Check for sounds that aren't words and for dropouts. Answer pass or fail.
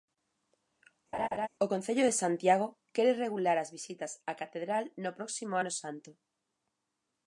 fail